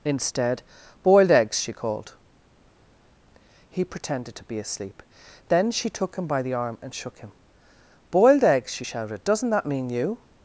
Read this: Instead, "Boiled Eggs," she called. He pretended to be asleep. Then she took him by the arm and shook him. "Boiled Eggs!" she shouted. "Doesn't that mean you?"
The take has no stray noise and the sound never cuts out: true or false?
true